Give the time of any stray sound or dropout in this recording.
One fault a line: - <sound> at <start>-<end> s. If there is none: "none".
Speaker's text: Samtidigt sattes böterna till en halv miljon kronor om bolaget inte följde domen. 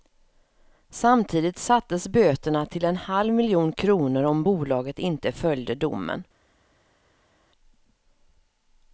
none